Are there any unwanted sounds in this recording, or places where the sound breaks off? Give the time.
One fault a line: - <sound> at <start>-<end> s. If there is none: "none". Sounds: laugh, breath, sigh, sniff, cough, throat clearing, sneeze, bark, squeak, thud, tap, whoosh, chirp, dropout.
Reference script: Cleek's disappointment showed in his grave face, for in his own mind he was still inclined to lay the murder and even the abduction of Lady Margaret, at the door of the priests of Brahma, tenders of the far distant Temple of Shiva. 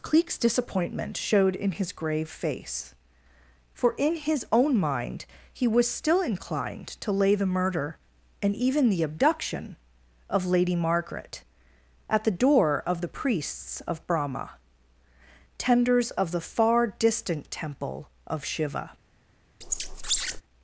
- squeak at 19.6-20.4 s